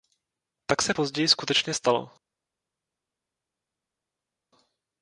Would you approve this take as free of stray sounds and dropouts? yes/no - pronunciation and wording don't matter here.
yes